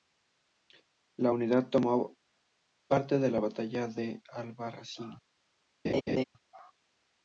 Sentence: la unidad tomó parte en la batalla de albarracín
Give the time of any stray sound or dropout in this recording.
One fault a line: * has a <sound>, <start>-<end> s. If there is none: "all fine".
* has a laugh, 5.8-6.2 s